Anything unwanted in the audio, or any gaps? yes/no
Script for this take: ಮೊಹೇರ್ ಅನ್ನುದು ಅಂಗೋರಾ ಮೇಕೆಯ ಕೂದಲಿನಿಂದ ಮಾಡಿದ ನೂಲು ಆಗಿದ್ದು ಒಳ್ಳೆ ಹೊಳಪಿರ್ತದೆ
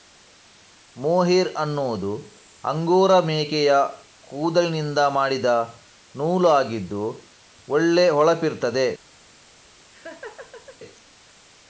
yes